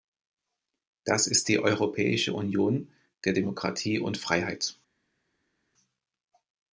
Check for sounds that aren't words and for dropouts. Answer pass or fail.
pass